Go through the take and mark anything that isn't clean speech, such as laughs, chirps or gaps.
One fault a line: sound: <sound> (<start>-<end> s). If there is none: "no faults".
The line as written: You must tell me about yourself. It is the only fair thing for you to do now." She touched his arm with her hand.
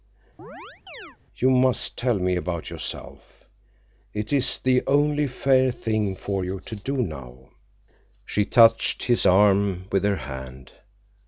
sound: chirp (0.4-1.2 s)